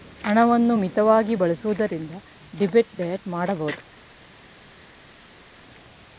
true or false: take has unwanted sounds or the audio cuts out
false